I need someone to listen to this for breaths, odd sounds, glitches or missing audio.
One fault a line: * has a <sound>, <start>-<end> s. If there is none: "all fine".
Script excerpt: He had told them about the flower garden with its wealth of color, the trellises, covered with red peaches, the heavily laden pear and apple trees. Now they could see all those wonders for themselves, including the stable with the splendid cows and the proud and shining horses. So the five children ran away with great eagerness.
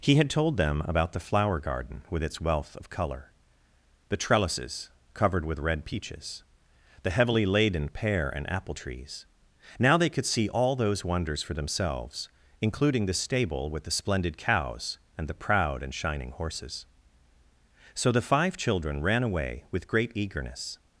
all fine